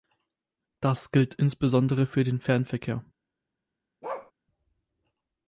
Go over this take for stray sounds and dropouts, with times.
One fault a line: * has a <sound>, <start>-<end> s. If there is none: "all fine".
* has a bark, 4.0-4.3 s